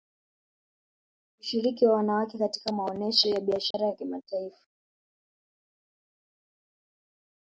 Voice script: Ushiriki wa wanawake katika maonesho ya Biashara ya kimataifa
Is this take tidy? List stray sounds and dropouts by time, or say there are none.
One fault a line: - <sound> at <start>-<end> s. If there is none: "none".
- dropout at 3.7-3.7 s